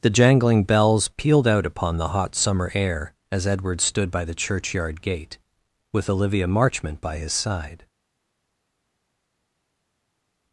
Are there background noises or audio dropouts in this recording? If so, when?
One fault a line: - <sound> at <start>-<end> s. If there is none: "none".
none